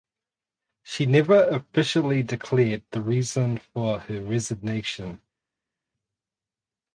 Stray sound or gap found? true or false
false